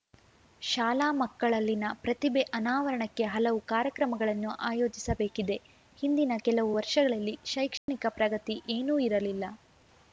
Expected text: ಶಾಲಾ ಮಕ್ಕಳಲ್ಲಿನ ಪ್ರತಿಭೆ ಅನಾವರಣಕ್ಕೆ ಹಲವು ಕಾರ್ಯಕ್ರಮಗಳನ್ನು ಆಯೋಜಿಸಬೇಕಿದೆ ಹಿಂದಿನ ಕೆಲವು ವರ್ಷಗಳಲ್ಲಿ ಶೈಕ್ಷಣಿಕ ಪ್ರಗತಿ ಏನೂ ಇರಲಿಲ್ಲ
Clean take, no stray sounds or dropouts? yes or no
no